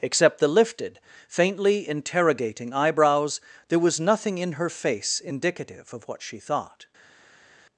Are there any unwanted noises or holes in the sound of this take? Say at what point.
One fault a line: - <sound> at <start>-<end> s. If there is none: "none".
none